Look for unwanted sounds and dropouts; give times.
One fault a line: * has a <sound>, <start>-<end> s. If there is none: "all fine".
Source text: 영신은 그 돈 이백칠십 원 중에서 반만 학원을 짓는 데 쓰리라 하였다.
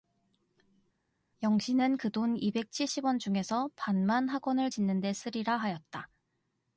all fine